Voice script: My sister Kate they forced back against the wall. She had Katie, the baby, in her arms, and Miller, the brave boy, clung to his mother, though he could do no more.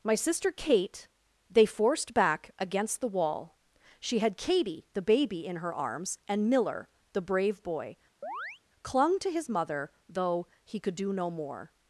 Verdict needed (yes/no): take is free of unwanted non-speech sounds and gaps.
no